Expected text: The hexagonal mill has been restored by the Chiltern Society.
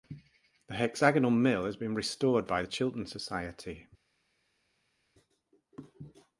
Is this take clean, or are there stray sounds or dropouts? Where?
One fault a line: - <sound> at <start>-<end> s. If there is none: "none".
none